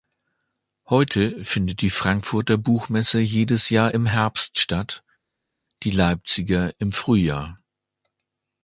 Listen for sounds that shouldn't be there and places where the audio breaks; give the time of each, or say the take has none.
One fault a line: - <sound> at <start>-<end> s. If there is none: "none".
none